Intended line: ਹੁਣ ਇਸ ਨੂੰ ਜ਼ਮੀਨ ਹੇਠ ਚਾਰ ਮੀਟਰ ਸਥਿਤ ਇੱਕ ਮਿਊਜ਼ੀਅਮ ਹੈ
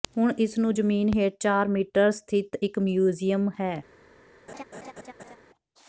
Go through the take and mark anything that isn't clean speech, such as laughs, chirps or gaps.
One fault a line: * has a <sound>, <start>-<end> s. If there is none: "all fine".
* has a laugh, 4.5-5.4 s